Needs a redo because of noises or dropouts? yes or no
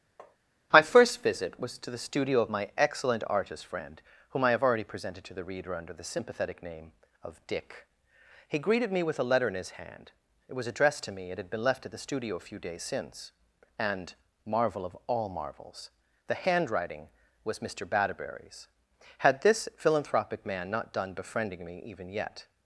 yes